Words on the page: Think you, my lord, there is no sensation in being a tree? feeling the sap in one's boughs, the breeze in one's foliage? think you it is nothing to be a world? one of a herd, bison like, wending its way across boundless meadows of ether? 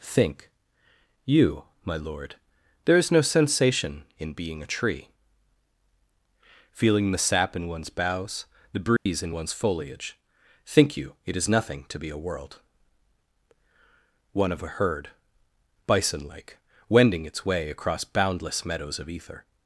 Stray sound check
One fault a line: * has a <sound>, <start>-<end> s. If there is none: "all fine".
* has a dropout, 9.0-9.1 s